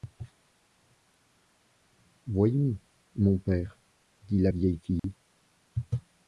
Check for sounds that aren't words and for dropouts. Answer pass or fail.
fail